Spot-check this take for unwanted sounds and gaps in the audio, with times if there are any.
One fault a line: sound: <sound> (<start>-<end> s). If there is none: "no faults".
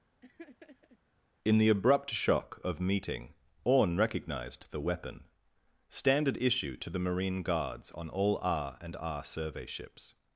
sound: laugh (0.2-1.0 s)